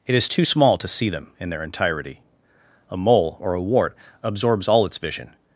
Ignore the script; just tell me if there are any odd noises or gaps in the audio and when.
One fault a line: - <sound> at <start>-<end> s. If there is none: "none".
none